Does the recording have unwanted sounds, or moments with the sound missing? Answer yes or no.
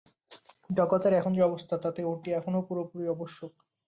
no